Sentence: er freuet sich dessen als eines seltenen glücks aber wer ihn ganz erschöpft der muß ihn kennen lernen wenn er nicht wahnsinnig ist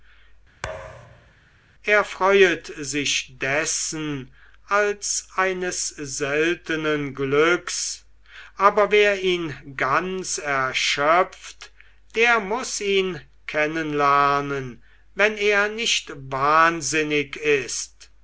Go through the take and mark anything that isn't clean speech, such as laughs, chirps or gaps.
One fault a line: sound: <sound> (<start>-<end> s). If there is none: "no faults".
sound: thud (0.6-1.3 s)